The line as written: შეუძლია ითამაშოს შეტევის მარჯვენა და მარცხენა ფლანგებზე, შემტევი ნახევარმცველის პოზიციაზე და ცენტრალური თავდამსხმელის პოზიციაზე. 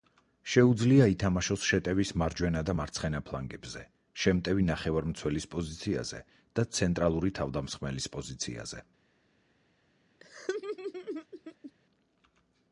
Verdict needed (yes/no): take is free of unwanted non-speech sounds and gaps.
no